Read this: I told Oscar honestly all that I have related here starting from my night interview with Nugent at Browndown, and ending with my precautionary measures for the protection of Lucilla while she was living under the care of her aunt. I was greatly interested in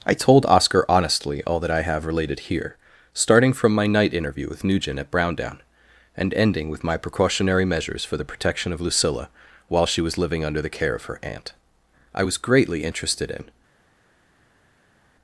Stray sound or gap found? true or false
false